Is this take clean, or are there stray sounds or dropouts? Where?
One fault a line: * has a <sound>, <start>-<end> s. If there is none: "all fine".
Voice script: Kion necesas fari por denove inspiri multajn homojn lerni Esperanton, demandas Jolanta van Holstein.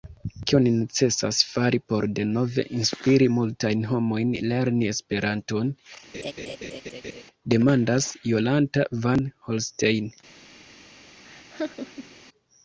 * has a laugh, 6.1-7.2 s
* has a laugh, 11.2-12.2 s